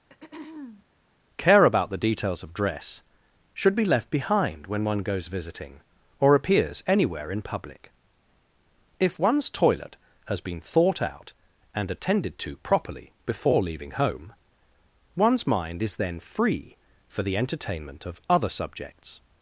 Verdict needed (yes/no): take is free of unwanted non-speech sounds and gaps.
no